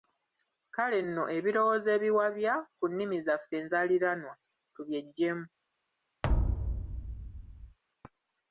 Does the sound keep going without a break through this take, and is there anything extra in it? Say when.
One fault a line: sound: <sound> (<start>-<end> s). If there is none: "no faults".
sound: thud (6.2-7.8 s)